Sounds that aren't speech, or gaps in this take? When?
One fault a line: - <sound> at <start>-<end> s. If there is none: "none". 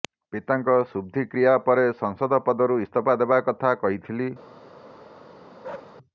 - bark at 5.6-6.0 s